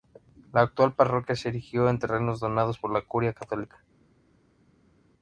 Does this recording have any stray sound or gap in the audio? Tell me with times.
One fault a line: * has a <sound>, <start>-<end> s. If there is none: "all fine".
all fine